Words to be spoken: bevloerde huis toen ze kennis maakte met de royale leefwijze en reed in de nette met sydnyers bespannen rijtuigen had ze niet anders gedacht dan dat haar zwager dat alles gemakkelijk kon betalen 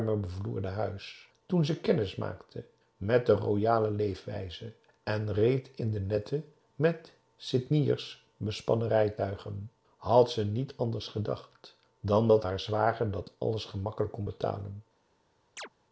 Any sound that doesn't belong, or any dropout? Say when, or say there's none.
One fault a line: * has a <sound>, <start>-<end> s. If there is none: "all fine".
* has a chirp, 15.6-15.7 s